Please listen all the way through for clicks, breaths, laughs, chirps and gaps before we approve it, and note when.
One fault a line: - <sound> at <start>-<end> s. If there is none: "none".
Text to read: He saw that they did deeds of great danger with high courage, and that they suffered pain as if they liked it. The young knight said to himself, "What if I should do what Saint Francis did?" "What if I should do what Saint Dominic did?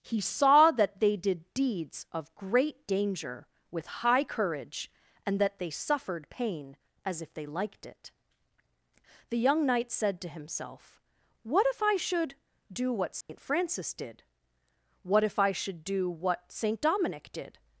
- dropout at 13.2-13.3 s